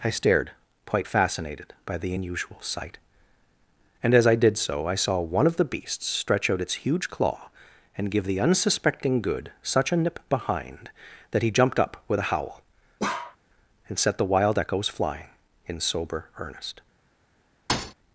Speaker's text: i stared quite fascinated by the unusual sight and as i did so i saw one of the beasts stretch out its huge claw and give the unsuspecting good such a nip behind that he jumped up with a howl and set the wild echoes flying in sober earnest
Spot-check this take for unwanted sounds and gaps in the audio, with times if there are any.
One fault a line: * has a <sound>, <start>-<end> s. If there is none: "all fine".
* has a bark, 13.0-13.4 s
* has a thud, 17.7-17.9 s